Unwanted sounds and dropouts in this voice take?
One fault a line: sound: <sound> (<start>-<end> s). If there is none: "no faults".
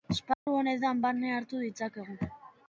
sound: dropout (0.3-0.5 s)